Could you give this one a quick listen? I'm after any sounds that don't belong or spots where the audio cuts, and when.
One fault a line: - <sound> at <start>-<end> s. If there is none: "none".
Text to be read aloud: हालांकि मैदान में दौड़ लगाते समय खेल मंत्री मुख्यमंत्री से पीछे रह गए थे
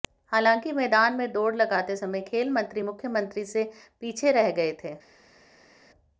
none